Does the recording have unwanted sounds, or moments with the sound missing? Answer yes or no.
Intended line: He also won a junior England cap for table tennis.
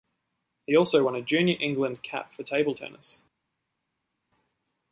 no